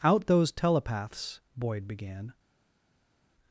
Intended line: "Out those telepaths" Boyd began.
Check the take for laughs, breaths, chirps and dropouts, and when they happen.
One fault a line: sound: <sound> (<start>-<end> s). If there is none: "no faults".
no faults